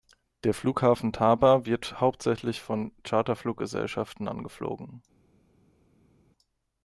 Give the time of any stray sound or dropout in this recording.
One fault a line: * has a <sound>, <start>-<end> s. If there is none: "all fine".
all fine